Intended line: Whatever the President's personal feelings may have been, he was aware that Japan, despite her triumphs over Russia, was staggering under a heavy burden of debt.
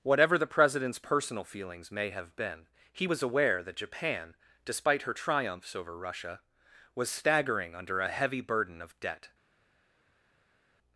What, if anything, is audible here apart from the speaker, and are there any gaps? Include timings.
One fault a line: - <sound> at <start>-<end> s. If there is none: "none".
none